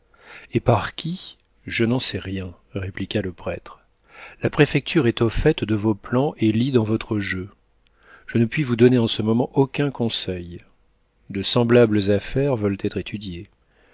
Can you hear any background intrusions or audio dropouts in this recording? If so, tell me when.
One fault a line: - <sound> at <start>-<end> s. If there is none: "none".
none